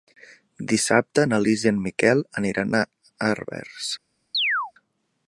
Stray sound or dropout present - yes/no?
yes